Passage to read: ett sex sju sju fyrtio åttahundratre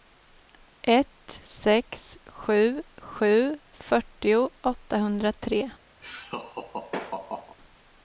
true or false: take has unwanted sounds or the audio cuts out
true